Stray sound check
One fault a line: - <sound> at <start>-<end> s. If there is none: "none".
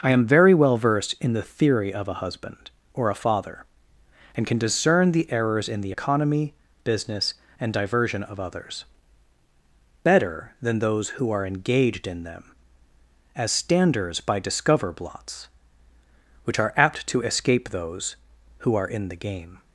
none